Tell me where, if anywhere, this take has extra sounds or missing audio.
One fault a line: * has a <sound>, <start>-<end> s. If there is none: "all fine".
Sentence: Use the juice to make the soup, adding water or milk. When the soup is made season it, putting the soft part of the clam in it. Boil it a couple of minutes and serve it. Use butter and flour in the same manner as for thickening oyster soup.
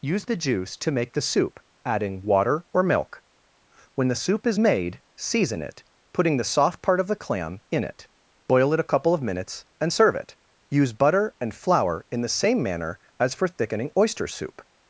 all fine